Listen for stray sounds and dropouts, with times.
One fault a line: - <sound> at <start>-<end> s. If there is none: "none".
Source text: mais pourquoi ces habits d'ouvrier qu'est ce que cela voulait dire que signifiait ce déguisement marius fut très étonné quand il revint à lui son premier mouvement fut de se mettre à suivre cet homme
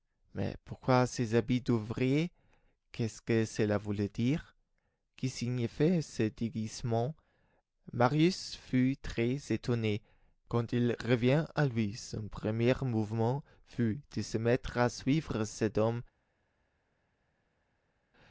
none